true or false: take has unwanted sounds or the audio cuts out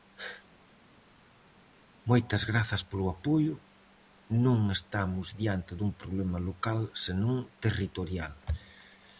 false